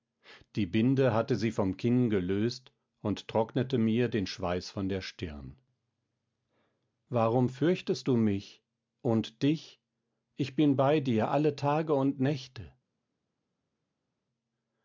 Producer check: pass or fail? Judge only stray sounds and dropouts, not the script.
pass